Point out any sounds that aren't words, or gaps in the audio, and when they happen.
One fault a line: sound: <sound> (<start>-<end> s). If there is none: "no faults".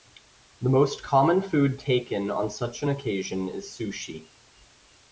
no faults